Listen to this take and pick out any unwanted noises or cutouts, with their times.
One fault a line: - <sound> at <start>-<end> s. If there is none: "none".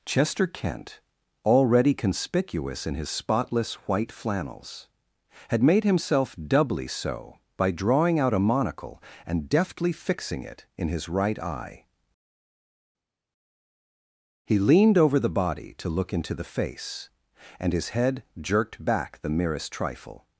none